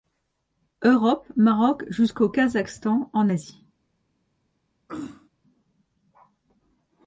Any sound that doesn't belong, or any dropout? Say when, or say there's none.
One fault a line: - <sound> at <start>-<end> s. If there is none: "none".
- throat clearing at 4.9-5.3 s